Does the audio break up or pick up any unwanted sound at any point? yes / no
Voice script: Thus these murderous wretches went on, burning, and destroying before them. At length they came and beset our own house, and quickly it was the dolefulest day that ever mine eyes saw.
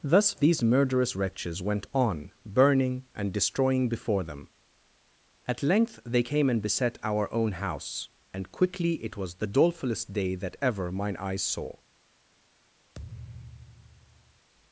yes